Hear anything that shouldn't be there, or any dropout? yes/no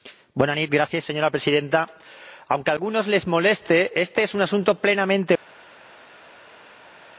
no